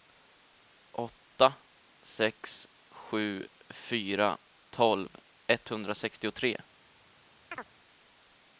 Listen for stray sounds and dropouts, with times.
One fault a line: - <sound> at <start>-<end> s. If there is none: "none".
- chirp at 7.5-7.7 s